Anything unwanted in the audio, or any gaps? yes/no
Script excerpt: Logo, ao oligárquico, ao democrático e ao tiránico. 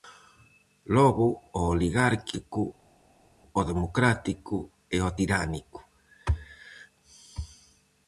no